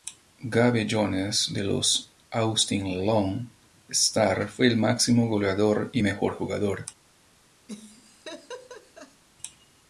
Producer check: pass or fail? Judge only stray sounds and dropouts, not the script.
fail